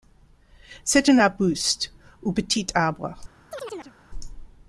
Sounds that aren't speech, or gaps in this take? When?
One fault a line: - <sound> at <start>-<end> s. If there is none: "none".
- chirp at 3.5-3.9 s